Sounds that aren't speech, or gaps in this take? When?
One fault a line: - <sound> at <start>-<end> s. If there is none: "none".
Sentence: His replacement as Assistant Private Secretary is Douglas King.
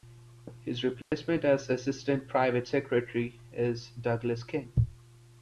- dropout at 1.0-1.1 s